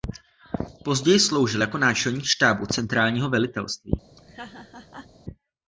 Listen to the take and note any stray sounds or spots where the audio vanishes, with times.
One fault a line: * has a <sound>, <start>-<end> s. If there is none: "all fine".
* has a laugh, 4.2-5.1 s